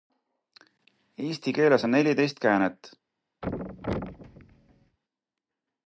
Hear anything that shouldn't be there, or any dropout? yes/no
yes